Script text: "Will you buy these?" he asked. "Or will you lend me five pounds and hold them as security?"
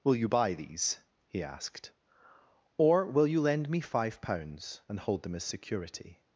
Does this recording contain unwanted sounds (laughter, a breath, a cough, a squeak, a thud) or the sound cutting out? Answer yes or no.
no